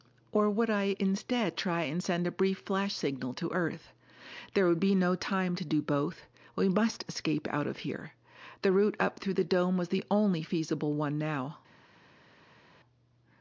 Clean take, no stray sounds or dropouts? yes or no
yes